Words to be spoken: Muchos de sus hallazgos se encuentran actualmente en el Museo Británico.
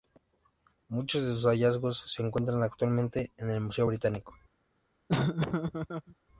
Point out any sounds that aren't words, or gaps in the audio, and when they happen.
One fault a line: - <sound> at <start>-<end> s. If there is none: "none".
- laugh at 5.1-6.1 s